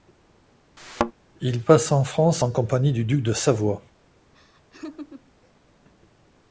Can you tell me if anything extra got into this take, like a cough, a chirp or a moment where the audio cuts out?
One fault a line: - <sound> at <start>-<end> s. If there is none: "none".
- thud at 0.8-1.1 s
- laugh at 4.3-5.3 s